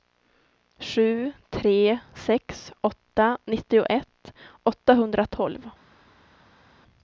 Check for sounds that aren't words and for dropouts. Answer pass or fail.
pass